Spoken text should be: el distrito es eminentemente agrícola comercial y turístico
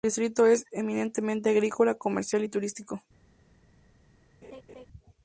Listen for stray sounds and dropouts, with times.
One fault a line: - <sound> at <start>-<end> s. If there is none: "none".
- laugh at 4.4-4.9 s